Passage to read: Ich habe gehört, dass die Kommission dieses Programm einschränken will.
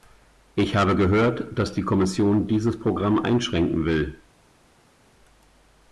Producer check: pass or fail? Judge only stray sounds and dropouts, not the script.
pass